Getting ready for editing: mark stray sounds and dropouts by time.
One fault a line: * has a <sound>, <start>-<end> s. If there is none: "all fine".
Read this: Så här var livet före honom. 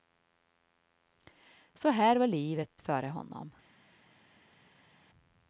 all fine